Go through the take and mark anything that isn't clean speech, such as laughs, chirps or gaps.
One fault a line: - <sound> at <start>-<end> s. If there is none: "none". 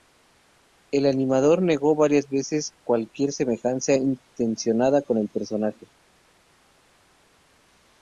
none